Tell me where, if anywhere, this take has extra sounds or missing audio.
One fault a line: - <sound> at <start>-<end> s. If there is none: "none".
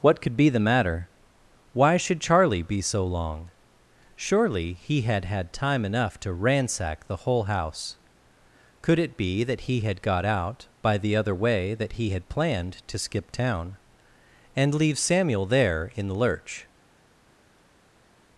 none